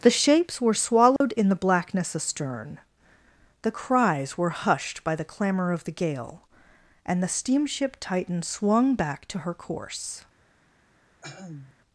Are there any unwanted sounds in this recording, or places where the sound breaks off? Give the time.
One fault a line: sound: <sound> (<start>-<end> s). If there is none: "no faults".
sound: dropout (1.2-1.2 s)
sound: throat clearing (11.2-11.8 s)